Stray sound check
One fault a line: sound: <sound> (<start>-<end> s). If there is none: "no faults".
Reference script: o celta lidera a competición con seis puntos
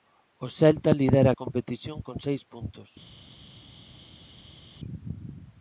no faults